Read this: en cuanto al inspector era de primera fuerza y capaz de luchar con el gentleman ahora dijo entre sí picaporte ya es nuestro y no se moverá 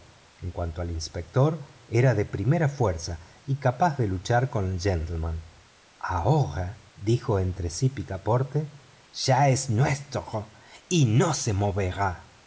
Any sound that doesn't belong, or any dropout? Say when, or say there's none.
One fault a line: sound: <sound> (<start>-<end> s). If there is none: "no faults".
no faults